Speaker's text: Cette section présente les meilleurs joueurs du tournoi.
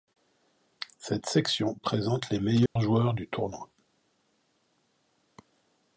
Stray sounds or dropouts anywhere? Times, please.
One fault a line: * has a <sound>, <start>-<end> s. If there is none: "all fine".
* has a dropout, 2.7-2.8 s